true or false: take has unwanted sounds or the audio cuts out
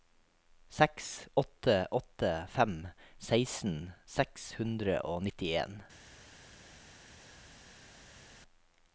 false